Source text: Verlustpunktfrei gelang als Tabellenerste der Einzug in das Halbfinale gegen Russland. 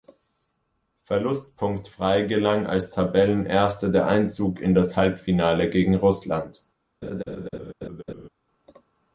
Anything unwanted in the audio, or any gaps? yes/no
yes